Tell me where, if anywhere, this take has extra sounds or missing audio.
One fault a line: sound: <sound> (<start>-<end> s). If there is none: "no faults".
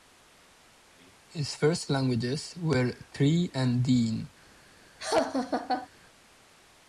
sound: laugh (5.0-5.9 s)